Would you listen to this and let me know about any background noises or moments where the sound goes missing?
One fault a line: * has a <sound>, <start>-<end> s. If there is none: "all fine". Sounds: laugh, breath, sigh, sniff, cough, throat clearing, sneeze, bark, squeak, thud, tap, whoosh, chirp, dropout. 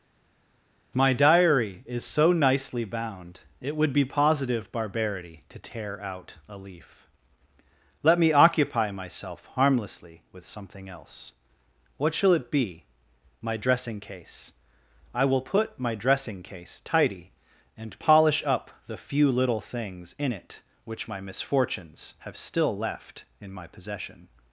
all fine